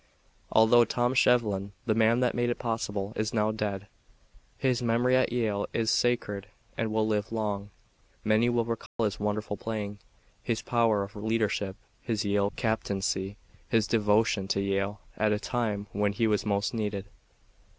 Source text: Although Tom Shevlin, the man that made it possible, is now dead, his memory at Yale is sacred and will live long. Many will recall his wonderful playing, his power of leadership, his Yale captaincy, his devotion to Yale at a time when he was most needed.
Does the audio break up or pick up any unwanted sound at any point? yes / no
yes